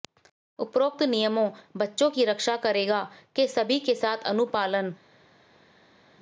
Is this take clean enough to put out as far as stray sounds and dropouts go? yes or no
yes